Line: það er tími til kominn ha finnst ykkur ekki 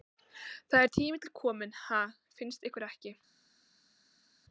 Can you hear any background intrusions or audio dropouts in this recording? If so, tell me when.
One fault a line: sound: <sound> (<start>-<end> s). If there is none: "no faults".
no faults